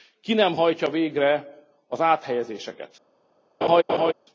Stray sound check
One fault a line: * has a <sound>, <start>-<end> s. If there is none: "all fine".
* has a laugh, 3.6-4.1 s